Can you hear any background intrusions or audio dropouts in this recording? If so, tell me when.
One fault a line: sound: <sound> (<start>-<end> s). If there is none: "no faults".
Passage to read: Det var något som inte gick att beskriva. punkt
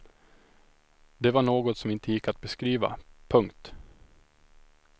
no faults